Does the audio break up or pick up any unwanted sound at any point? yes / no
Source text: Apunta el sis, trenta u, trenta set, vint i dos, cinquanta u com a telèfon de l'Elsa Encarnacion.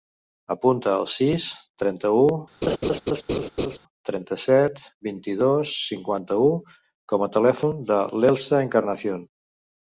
yes